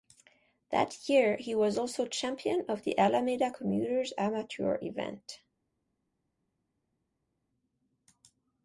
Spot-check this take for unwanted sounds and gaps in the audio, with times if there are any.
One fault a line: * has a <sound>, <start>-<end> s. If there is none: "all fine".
all fine